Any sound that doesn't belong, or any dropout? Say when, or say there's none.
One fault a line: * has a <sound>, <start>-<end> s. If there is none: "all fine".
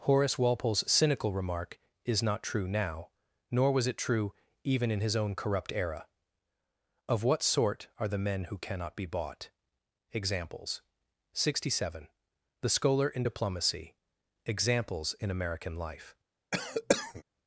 * has a cough, 16.5-17.2 s